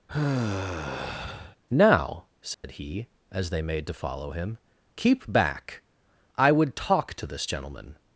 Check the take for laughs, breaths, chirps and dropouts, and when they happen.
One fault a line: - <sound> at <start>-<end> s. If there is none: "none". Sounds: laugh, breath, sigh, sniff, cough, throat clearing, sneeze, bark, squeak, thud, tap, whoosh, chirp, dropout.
- sigh at 0.1-1.6 s
- dropout at 2.5-2.6 s